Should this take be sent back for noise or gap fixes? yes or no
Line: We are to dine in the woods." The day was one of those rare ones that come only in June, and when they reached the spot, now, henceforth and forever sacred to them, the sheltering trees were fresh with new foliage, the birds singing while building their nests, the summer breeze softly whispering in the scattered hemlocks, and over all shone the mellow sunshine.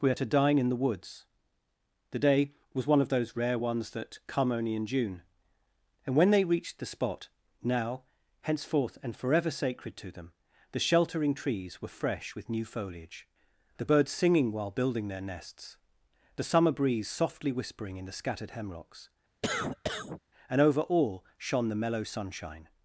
yes